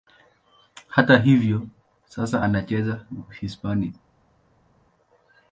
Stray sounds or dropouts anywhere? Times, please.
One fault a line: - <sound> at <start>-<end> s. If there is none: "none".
none